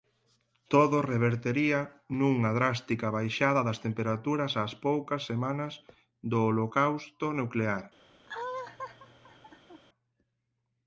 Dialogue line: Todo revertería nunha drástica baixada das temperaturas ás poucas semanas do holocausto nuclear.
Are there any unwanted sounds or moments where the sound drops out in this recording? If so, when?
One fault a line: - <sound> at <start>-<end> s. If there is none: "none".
- laugh at 8.3-9.8 s